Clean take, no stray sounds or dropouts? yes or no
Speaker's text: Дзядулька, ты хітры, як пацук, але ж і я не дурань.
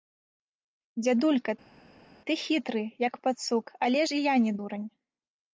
yes